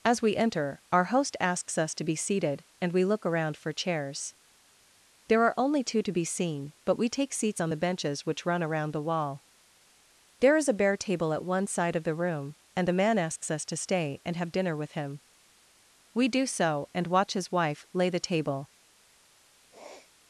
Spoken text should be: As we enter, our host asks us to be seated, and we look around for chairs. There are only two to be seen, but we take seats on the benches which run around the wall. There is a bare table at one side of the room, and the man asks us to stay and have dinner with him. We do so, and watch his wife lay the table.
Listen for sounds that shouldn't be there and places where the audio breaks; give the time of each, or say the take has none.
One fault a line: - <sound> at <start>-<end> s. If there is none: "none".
- sniff at 19.7-20.1 s